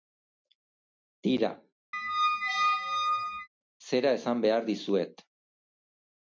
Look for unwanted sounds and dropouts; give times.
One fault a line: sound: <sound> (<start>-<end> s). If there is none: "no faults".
sound: squeak (1.9-3.5 s)